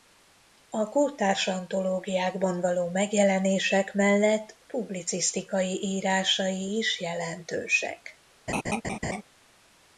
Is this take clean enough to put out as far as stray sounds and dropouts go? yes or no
no